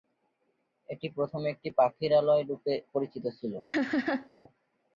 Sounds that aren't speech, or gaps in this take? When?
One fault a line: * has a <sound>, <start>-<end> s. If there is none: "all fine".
* has a laugh, 3.7-4.3 s